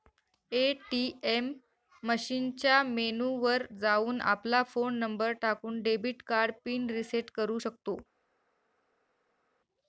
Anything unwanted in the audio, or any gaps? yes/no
no